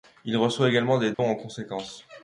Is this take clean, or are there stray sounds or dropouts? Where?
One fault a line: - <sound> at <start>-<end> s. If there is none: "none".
- dropout at 1.1-1.2 s